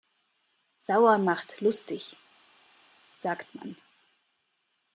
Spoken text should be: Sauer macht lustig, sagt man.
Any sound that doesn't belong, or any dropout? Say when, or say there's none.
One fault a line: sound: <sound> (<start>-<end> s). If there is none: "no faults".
no faults